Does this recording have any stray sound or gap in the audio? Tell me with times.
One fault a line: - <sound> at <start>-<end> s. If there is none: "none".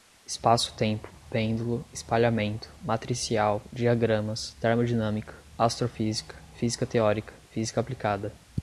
none